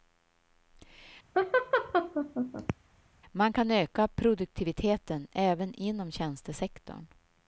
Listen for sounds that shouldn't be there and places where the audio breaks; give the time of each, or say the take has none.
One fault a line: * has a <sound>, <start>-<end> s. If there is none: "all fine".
* has a laugh, 1.3-2.7 s